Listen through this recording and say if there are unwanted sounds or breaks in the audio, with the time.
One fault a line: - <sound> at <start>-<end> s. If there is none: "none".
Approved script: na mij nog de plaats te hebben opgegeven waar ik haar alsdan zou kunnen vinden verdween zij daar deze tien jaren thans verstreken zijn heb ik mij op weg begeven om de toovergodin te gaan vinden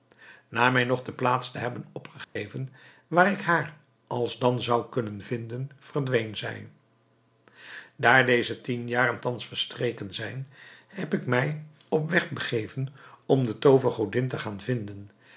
- dropout at 2.2-2.4 s